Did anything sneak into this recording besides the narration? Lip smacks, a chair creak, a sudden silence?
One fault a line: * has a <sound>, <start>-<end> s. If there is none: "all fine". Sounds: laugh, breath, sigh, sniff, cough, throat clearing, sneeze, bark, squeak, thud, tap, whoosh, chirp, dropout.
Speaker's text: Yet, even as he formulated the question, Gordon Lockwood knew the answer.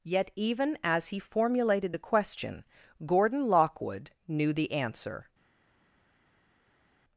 all fine